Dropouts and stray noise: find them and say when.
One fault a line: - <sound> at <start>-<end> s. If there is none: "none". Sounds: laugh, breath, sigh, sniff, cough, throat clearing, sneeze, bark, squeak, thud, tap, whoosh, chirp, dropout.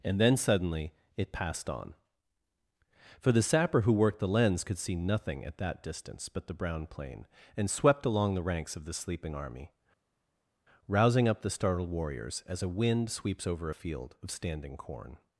none